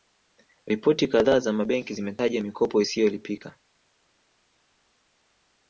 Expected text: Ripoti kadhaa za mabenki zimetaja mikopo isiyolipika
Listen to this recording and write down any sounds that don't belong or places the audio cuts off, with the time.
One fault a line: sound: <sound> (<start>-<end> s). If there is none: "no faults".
no faults